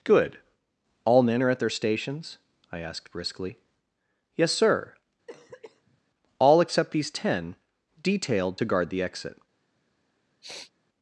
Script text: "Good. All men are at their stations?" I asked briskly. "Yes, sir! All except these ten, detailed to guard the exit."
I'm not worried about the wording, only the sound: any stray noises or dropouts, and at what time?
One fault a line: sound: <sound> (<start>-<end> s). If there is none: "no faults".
sound: cough (5.3-6.0 s)
sound: sniff (10.4-10.7 s)